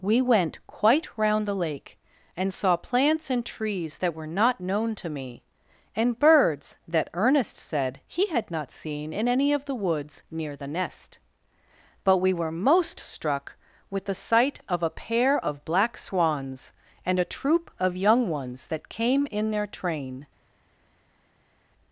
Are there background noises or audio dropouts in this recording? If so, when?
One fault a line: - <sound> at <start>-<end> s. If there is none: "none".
none